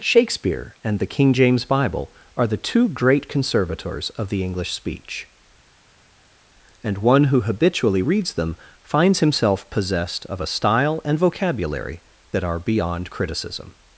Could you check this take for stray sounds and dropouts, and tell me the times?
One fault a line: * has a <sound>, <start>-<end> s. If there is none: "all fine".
all fine